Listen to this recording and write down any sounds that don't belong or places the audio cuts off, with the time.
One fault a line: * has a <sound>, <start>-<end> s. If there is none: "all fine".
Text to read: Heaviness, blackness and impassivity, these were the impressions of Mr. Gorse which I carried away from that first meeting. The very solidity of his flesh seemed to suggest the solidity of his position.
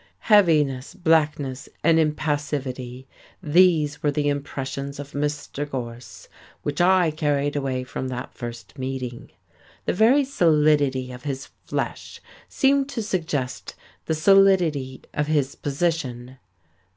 all fine